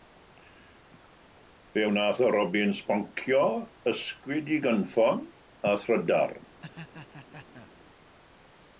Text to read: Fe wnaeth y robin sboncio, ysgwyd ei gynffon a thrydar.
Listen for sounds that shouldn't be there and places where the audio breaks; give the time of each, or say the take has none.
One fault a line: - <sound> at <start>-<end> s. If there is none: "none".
- laugh at 6.6-7.7 s